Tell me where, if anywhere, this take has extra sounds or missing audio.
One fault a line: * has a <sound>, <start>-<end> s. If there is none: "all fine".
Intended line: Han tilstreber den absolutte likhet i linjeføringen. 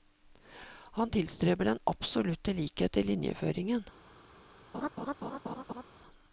* has a laugh, 4.7-5.8 s